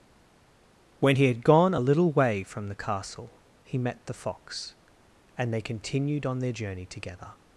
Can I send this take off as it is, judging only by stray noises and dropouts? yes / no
yes